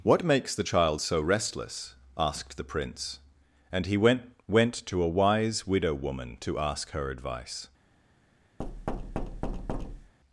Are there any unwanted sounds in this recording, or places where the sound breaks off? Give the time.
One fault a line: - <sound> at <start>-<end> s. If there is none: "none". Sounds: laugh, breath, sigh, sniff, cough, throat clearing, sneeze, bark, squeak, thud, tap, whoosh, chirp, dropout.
- thud at 8.6-10.1 s